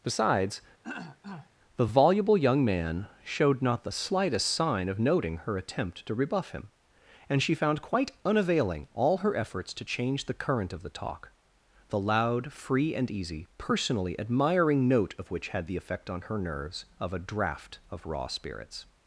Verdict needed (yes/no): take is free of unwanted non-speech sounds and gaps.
no